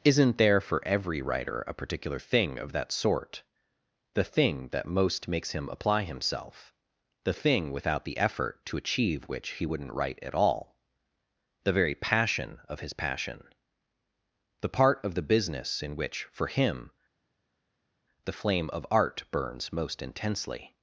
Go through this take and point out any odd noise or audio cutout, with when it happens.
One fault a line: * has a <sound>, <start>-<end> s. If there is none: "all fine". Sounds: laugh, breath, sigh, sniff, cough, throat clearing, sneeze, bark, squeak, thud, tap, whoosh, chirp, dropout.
all fine